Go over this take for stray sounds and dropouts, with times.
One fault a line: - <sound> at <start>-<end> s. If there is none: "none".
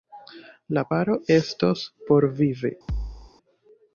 - thud at 2.9-3.3 s